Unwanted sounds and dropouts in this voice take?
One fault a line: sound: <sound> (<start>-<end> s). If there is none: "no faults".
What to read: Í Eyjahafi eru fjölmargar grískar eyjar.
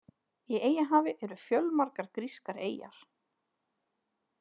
no faults